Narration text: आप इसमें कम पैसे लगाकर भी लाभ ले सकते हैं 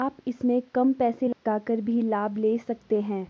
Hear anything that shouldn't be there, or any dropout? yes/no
yes